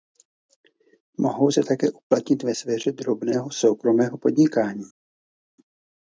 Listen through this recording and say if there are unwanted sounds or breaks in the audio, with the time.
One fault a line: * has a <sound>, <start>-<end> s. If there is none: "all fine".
all fine